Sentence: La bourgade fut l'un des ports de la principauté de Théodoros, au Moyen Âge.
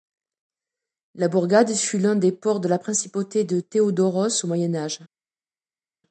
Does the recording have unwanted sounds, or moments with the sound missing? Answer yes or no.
no